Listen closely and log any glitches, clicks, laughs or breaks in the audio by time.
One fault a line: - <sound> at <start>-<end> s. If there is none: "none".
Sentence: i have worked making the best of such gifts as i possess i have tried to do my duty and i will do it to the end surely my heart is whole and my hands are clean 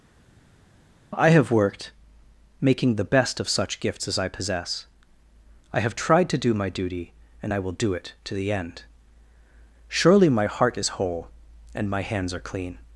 none